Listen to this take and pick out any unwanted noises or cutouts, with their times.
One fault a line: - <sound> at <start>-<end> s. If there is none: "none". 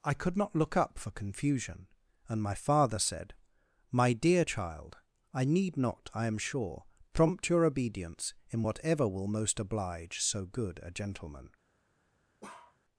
- bark at 12.4-12.8 s